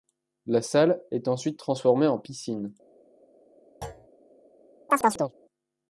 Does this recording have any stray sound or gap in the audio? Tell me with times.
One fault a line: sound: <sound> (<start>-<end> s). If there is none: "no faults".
sound: thud (3.8-4.1 s)
sound: chirp (4.9-5.3 s)